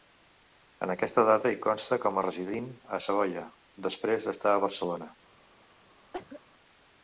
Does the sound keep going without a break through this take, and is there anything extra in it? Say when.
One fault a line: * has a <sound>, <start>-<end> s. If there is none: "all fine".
* has a cough, 6.1-6.4 s